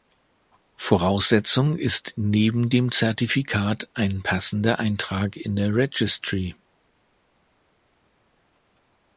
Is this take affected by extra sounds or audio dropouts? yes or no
no